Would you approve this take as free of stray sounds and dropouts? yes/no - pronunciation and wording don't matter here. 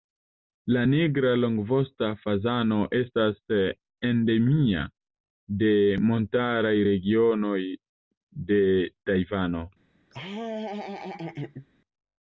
no